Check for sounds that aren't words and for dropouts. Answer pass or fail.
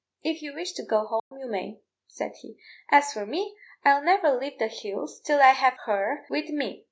fail